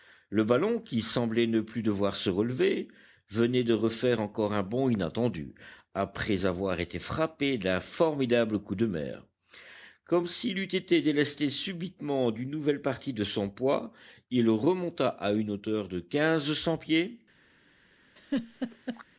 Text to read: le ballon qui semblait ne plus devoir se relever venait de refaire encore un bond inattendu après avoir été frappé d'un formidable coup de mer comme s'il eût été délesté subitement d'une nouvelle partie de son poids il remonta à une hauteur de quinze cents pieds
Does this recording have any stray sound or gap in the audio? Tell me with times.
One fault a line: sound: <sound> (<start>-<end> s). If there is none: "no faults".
sound: laugh (18.2-19.0 s)